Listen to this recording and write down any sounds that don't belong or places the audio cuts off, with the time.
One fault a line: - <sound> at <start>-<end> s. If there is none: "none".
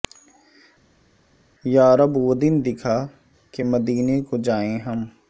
none